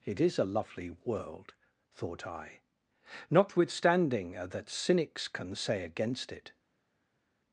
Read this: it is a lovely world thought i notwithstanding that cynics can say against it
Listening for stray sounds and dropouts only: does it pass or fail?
pass